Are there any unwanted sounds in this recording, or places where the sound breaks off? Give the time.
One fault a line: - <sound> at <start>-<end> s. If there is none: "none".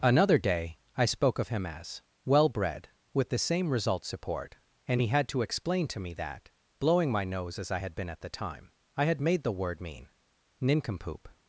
none